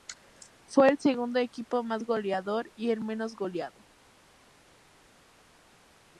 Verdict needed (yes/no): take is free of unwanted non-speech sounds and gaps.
yes